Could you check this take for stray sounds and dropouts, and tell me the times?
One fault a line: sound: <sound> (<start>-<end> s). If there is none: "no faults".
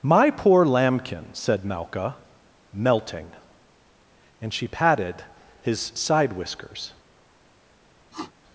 sound: sniff (8.1-8.3 s)